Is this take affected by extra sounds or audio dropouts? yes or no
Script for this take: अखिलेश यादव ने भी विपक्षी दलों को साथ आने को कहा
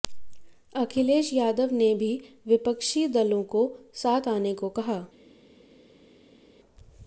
no